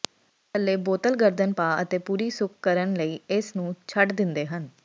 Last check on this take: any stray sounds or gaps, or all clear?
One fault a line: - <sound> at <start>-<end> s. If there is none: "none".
none